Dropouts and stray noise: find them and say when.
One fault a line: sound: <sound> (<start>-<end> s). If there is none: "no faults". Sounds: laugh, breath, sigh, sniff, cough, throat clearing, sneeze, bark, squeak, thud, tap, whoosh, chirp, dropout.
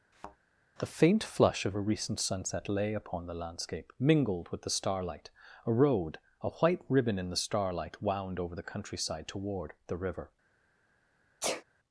sound: thud (0.1-0.4 s)
sound: sneeze (11.4-11.6 s)